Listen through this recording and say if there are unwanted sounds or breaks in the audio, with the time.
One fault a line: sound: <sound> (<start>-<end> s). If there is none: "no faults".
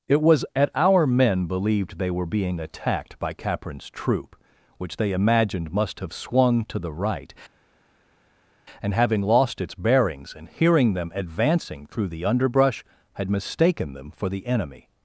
no faults